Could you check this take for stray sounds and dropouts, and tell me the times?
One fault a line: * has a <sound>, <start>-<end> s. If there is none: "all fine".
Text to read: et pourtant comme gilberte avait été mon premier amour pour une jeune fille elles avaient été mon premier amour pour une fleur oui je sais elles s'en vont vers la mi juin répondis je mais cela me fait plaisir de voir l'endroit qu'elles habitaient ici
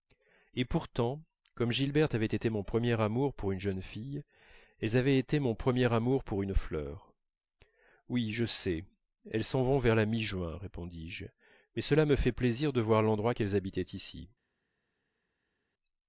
all fine